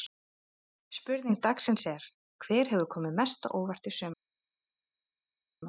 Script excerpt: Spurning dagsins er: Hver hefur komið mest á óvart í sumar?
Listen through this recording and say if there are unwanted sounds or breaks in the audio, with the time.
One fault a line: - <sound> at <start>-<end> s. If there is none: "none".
none